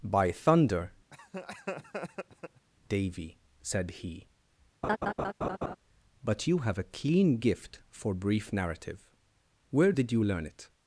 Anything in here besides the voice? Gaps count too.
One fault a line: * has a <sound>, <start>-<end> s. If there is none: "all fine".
* has a laugh, 1.1-2.7 s
* has a laugh, 4.8-5.8 s